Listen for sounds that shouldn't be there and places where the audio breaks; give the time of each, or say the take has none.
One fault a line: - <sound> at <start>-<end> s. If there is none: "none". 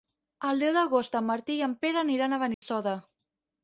- dropout at 2.5-2.6 s